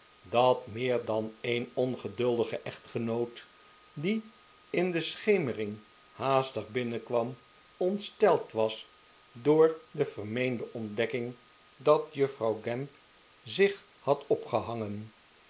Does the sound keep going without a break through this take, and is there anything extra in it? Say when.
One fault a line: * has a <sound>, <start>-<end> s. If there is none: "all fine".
all fine